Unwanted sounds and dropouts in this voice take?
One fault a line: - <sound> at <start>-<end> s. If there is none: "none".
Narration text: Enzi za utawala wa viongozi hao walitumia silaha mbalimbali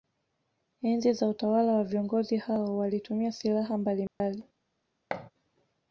- dropout at 4.1-4.2 s
- thud at 5.1-5.3 s